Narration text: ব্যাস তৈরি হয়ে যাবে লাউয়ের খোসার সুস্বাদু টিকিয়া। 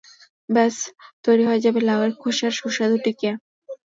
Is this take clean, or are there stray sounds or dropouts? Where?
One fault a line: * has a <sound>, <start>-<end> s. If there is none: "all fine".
all fine